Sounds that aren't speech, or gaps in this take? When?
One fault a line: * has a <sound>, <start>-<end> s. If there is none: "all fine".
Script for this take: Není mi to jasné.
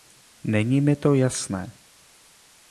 all fine